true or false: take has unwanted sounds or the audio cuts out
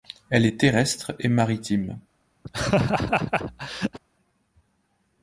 true